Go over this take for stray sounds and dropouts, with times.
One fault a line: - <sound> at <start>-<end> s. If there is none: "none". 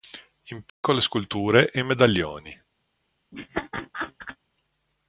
- dropout at 0.7-0.8 s
- laugh at 3.3-4.4 s